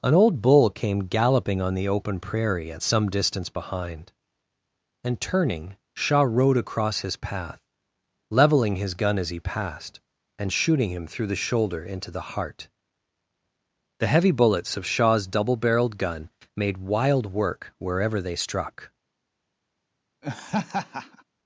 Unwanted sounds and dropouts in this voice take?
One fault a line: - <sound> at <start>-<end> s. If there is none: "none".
- laugh at 20.2-21.2 s